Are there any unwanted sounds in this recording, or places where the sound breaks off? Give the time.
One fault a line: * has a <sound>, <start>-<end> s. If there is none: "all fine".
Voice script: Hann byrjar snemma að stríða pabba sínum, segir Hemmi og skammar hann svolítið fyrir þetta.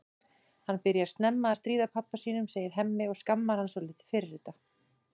all fine